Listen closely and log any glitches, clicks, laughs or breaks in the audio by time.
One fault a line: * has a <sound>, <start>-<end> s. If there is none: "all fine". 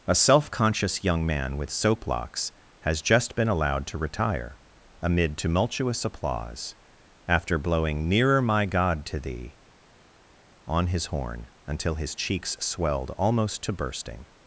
all fine